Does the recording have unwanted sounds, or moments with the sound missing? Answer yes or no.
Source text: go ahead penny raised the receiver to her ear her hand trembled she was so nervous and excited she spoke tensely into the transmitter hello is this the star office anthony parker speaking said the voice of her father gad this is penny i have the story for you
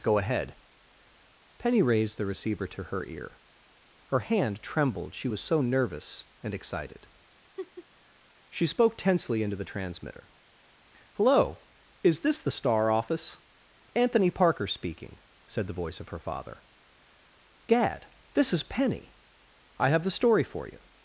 yes